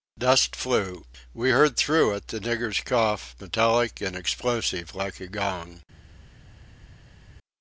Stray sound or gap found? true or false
false